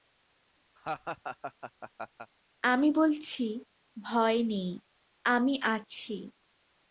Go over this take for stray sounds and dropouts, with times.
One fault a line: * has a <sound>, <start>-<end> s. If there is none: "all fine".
* has a laugh, 0.8-2.3 s